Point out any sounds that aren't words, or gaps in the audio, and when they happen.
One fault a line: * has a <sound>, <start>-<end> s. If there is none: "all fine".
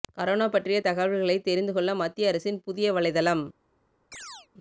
* has a chirp, 4.1-4.5 s